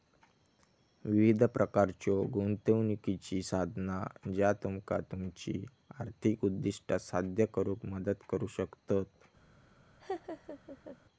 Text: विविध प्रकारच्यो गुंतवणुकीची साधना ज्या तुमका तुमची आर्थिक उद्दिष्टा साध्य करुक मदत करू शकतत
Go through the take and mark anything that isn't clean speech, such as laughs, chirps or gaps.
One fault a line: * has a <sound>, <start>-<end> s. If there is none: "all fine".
* has a laugh, 10.0-11.0 s